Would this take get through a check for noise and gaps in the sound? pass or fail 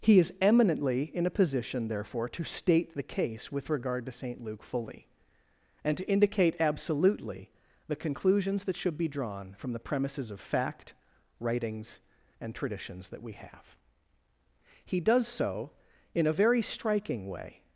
pass